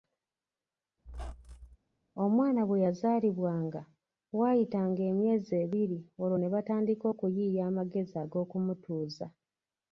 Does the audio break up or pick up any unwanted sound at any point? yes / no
yes